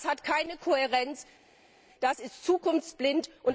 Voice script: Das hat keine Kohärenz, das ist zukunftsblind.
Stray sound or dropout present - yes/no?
no